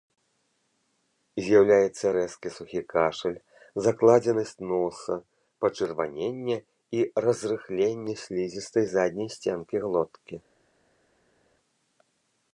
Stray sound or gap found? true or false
false